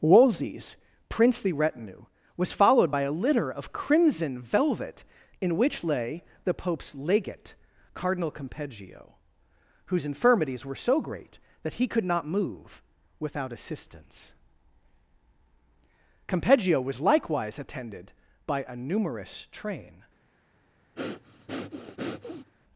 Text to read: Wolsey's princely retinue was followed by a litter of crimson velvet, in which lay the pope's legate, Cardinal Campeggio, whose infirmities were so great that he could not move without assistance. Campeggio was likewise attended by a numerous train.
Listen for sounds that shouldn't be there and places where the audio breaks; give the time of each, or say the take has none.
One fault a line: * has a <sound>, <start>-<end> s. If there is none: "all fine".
* has a breath, 21.0-22.5 s